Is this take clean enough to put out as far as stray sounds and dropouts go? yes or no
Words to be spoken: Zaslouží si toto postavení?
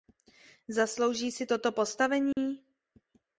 no